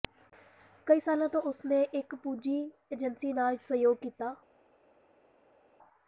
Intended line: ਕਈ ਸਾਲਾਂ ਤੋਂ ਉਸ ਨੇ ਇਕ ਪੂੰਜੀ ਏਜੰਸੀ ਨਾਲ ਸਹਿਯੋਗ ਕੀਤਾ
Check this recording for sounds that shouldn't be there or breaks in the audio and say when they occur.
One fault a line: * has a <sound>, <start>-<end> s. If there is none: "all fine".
all fine